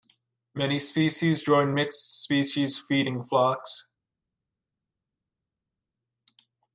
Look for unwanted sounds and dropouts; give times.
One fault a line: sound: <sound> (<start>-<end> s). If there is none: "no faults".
no faults